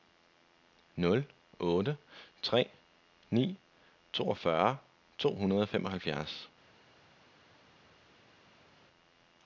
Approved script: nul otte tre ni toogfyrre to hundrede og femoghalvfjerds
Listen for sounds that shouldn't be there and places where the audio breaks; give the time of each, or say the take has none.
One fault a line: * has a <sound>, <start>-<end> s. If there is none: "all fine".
all fine